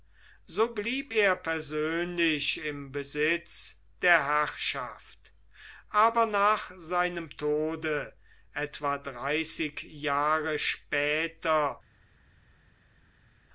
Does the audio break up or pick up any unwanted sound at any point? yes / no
no